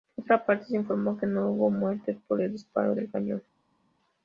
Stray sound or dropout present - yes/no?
no